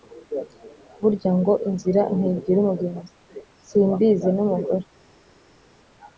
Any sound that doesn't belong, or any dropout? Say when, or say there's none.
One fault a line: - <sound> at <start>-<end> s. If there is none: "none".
none